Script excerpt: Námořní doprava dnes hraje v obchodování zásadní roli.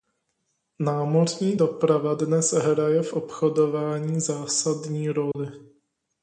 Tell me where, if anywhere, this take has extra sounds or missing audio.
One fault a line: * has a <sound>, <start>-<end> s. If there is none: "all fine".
* has a dropout, 5.3-5.3 s